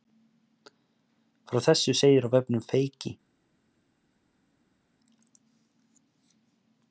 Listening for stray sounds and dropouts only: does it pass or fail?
pass